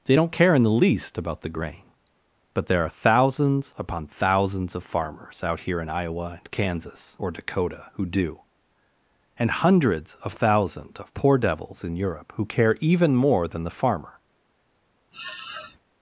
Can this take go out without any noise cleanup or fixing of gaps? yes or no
no